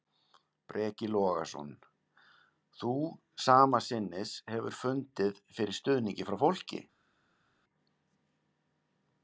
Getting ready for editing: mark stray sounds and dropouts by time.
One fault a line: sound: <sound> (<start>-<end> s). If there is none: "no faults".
no faults